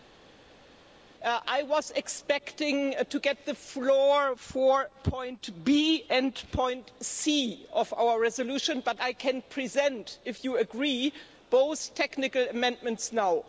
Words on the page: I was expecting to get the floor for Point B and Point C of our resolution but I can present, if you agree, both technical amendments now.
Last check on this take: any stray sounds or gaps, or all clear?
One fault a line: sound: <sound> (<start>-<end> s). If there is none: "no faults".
no faults